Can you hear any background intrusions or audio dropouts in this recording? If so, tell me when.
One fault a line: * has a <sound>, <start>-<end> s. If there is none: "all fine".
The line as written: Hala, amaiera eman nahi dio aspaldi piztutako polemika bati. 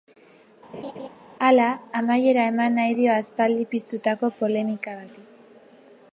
* has a laugh, 0.7-1.1 s